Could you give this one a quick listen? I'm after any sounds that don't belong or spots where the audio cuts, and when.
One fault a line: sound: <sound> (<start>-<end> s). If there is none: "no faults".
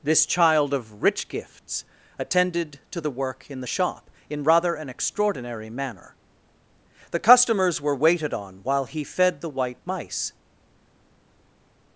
no faults